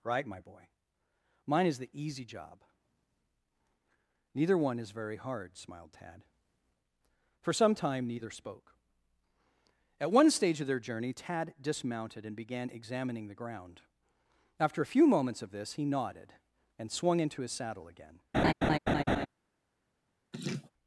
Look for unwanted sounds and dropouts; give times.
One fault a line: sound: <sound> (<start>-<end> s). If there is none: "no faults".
sound: laugh (18.3-19.3 s)
sound: laugh (20.3-20.7 s)